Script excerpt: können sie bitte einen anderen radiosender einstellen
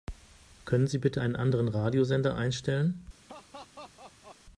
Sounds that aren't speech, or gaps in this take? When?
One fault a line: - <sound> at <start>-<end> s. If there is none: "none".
- laugh at 3.3-4.4 s